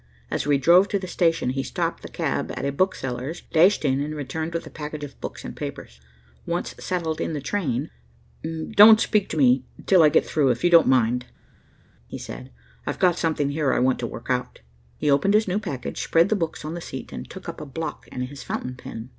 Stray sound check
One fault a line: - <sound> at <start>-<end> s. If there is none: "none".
none